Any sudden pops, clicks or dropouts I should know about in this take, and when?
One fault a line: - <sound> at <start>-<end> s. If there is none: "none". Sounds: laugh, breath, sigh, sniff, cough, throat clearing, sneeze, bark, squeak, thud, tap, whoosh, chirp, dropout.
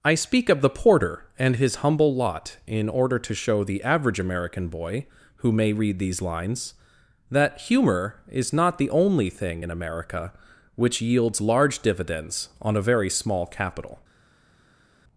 none